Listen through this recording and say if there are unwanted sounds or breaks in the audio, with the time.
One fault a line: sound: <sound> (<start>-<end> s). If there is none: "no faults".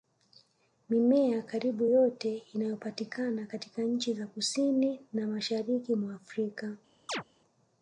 sound: chirp (7.1-7.2 s)